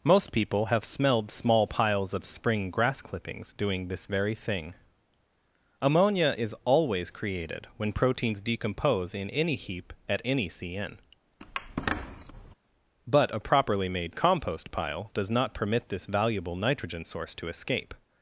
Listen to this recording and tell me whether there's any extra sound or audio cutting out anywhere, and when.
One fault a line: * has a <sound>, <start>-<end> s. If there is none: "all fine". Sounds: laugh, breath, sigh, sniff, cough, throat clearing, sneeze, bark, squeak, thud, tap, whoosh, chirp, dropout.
* has a squeak, 11.4-12.6 s